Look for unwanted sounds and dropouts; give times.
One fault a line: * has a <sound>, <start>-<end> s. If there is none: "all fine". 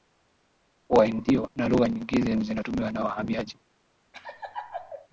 * has a laugh, 4.1-5.1 s